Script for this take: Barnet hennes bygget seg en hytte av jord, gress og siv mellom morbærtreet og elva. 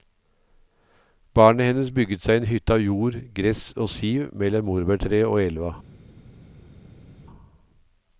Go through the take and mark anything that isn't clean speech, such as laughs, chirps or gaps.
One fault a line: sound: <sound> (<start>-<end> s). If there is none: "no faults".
no faults